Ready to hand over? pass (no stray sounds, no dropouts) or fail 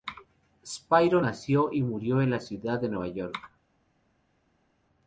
pass